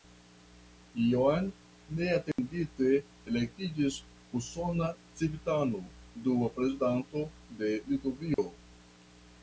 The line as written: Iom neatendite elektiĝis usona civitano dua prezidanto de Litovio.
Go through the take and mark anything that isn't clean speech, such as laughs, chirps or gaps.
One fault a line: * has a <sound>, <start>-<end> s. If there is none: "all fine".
* has a dropout, 2.3-2.4 s
* has a dropout, 8.3-8.4 s